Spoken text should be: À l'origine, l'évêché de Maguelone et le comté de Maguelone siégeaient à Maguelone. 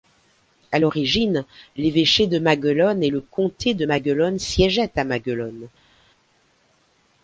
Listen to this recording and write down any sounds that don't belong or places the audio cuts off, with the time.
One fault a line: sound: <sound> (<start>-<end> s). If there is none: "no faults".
no faults